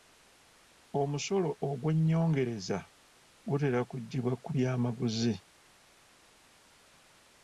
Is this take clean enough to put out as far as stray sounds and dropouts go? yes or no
yes